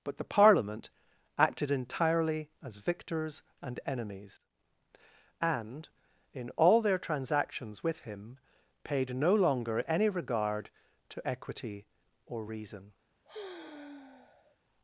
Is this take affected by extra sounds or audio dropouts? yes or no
yes